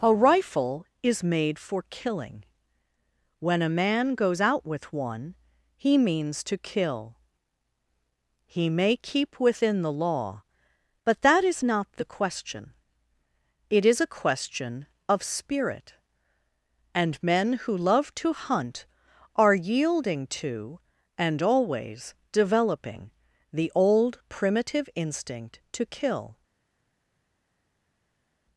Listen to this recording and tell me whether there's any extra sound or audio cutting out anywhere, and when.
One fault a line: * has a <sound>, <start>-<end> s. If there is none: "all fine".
all fine